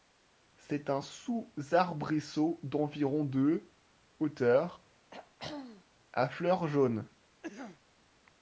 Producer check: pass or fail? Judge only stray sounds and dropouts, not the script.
fail